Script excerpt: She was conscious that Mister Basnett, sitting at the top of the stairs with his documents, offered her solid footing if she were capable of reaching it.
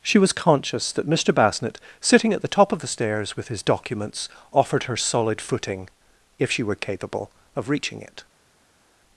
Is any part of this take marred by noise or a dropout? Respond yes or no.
no